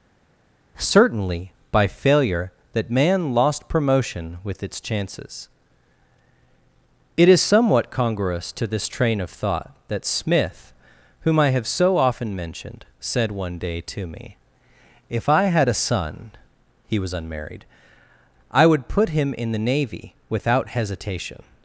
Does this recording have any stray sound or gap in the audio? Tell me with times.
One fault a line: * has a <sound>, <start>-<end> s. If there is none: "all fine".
all fine